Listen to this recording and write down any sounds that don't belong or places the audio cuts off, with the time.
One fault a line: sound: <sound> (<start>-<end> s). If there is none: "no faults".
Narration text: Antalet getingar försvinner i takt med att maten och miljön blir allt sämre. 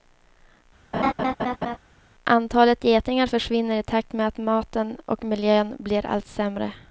sound: laugh (0.9-1.8 s)